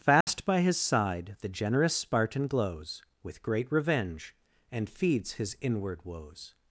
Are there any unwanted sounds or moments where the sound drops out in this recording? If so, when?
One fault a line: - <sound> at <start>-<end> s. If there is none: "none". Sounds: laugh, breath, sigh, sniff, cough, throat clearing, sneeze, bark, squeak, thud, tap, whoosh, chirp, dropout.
- dropout at 0.2-0.3 s